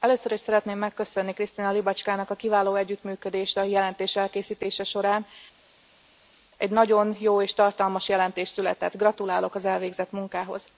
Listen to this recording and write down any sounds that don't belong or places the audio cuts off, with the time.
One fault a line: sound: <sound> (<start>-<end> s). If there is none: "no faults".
no faults